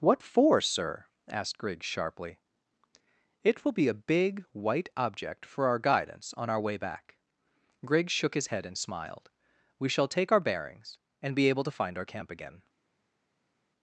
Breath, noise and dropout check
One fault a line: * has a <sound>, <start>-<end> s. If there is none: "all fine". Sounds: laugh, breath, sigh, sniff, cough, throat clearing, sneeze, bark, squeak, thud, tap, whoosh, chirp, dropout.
all fine